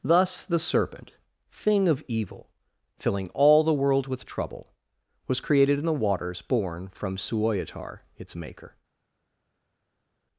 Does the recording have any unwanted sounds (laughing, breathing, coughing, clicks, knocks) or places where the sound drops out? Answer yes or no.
no